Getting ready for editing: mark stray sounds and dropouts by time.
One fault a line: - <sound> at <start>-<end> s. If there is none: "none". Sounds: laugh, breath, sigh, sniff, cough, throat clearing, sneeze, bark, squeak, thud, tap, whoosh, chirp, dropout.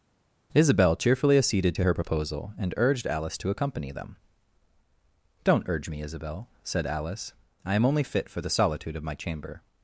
none